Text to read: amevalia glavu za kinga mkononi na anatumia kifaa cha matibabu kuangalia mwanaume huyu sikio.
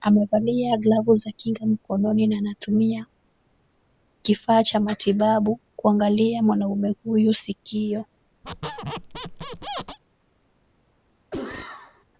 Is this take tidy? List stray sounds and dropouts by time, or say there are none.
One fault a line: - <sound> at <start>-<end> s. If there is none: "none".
- squeak at 8.4-10.0 s
- cough at 11.3-12.1 s